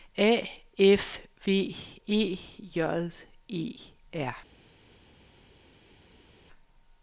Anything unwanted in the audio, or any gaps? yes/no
no